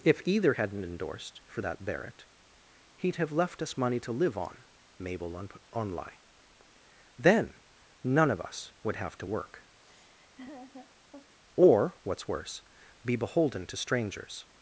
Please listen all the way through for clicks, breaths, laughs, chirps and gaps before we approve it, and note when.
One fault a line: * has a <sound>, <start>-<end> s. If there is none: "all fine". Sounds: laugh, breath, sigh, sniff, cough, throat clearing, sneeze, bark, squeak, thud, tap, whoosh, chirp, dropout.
* has a laugh, 9.8-11.4 s